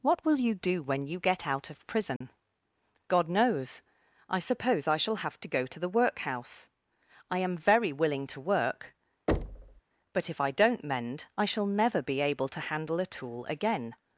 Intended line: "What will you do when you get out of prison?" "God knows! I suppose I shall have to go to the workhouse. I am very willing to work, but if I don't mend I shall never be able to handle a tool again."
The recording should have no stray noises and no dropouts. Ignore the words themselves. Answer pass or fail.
fail